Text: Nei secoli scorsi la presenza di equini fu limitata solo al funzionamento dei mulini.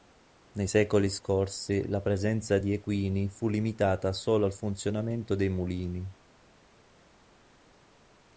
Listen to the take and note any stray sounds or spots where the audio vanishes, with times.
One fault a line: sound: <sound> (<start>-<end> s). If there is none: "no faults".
no faults